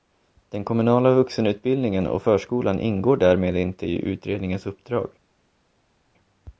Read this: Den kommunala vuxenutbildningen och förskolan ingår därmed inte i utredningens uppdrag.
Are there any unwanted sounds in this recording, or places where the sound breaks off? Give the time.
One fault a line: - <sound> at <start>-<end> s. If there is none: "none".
none